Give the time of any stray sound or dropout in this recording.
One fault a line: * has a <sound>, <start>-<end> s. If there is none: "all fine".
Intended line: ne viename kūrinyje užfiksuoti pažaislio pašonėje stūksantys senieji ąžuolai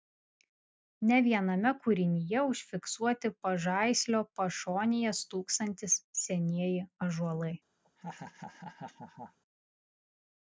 * has a laugh, 7.8-9.4 s